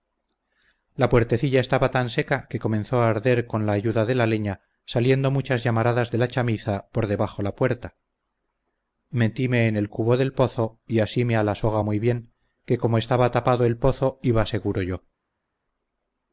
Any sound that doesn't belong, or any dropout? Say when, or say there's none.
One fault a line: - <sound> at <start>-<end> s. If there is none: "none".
none